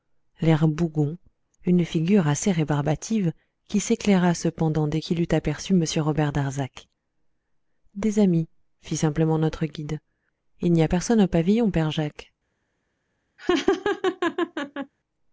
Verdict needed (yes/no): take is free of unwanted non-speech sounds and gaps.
no